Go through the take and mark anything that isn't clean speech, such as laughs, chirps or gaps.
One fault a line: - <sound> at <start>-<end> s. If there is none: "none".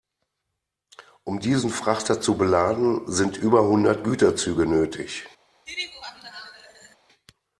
- laugh at 5.7-7.0 s